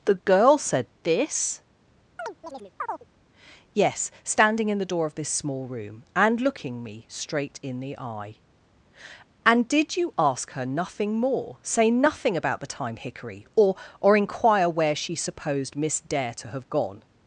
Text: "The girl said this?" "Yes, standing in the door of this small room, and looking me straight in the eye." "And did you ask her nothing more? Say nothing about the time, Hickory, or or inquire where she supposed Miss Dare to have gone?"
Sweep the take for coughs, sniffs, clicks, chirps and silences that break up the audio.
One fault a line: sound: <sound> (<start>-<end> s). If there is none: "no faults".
sound: chirp (2.2-3.1 s)